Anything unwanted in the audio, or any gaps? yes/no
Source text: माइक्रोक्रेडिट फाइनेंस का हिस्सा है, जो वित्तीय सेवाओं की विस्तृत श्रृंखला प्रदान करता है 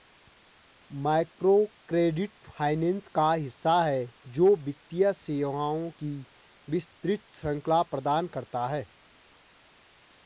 no